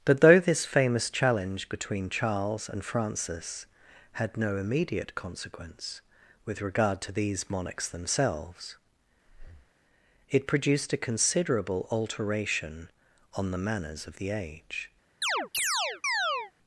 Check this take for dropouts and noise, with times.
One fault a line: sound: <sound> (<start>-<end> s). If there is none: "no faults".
sound: breath (9.3-9.7 s)
sound: chirp (15.2-16.5 s)